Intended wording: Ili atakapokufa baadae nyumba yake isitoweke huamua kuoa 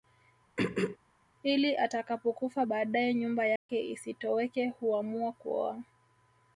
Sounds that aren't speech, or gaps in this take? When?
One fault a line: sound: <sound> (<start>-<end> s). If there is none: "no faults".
sound: throat clearing (0.6-1.0 s)
sound: dropout (3.6-3.7 s)